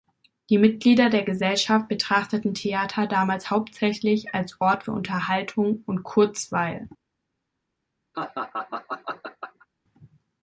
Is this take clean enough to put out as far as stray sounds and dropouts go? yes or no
no